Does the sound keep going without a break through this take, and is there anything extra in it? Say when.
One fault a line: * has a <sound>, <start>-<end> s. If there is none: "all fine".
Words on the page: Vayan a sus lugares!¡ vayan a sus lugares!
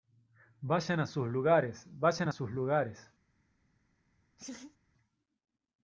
* has a laugh, 4.4-4.8 s